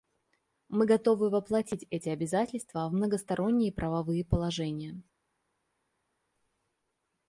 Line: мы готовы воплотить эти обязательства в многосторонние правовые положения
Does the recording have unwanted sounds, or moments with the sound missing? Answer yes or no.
no